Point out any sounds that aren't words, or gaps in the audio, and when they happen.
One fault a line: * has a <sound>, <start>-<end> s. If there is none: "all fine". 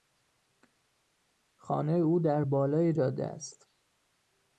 all fine